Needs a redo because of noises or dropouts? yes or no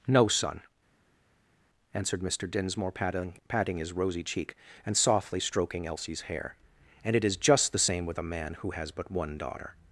no